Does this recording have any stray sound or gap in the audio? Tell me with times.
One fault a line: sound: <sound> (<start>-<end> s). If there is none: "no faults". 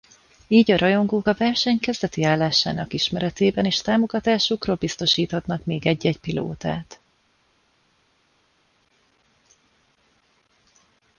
no faults